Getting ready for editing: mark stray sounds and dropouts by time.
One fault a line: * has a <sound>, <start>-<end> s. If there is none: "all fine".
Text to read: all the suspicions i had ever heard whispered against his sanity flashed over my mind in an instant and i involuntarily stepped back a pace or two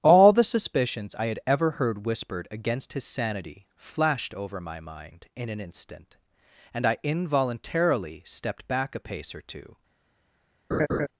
* has a laugh, 10.7-11.1 s